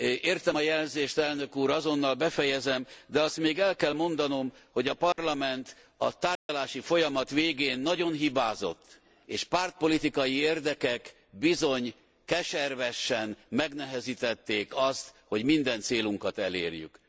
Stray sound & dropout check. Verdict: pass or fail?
fail